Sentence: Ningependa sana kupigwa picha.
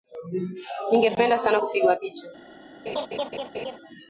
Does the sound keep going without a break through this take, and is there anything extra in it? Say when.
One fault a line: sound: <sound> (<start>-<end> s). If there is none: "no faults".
sound: laugh (2.9-3.8 s)